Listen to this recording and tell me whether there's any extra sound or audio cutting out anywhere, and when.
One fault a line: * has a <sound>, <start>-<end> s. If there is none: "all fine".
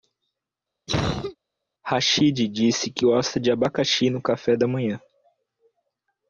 * has a cough, 0.9-1.4 s